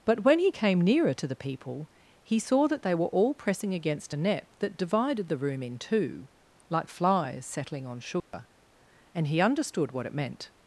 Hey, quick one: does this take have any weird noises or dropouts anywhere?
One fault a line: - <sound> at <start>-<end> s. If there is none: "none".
- dropout at 8.2-8.3 s